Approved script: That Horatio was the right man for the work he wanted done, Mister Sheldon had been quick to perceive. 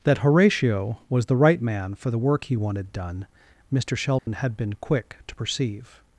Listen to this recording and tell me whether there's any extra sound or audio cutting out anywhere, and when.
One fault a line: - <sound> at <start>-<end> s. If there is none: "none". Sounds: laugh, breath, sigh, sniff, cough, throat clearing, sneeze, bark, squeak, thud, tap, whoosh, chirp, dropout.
- dropout at 4.2-4.3 s